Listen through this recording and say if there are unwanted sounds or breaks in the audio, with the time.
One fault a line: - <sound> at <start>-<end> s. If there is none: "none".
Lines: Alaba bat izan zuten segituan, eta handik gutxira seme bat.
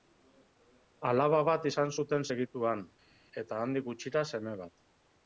none